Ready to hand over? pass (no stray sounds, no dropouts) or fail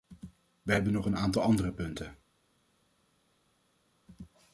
pass